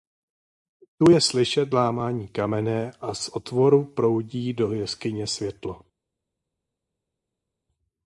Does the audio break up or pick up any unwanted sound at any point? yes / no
no